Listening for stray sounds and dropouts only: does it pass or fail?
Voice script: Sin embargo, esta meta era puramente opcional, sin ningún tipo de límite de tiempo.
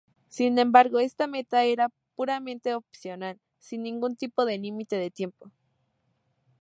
pass